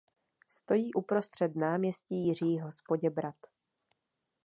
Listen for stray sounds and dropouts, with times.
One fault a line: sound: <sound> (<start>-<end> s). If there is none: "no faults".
no faults